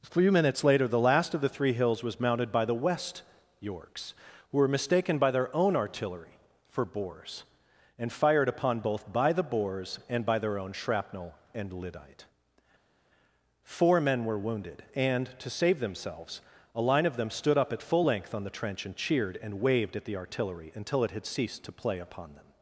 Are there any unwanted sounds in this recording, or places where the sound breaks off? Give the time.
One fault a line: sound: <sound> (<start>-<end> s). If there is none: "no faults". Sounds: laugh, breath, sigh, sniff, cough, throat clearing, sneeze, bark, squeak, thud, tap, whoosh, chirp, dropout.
no faults